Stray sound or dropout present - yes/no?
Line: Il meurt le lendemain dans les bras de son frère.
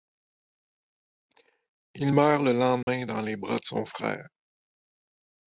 yes